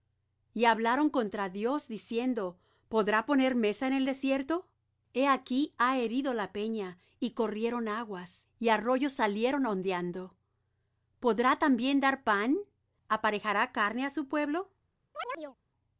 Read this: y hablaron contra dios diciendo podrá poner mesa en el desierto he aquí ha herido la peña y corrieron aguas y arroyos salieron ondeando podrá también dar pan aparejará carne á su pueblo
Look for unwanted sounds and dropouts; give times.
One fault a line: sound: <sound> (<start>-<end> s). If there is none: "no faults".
sound: chirp (15.1-15.6 s)